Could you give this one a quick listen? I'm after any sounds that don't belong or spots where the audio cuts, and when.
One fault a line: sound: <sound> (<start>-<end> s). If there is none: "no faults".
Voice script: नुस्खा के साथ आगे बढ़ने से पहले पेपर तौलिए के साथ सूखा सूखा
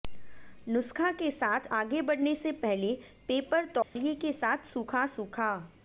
sound: dropout (3.8-4.0 s)